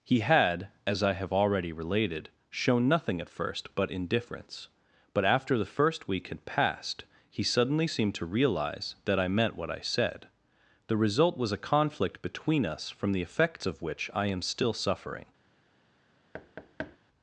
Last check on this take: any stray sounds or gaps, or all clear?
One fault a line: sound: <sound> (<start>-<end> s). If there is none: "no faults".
sound: thud (16.3-17.0 s)